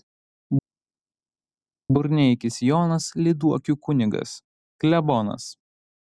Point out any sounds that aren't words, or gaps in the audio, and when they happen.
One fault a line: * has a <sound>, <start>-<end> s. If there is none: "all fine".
all fine